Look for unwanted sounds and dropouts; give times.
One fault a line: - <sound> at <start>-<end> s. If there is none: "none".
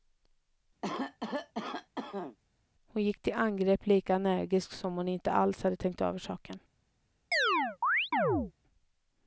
- cough at 0.8-2.4 s
- chirp at 7.3-8.5 s